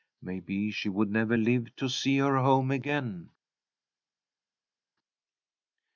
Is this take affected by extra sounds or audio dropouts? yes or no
no